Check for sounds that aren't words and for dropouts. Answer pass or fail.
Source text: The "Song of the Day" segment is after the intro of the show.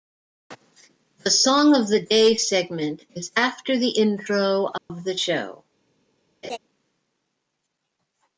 fail